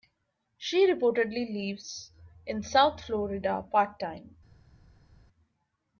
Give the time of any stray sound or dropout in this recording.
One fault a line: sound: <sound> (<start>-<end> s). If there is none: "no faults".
no faults